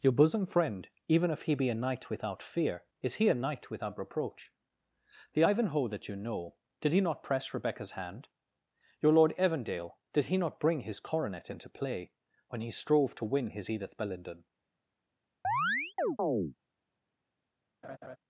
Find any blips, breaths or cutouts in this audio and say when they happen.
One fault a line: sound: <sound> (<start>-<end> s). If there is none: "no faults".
sound: chirp (15.4-16.5 s)
sound: laugh (17.8-18.2 s)